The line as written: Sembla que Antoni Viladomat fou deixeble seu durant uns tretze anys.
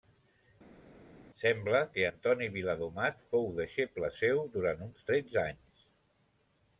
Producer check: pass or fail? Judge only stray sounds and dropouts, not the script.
pass